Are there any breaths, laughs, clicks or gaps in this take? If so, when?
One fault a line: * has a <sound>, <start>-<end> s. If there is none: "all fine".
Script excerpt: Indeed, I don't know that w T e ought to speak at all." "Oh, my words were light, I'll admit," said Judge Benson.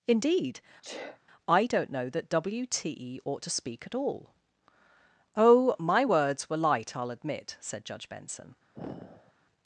* has a sneeze, 0.8-1.2 s
* has a sigh, 8.7-9.3 s